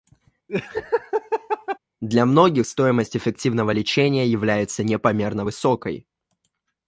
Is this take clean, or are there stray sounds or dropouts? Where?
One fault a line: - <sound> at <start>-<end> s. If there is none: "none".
- laugh at 0.5-1.8 s